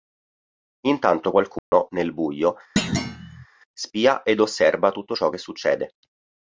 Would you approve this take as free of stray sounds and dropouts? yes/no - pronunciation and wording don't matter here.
no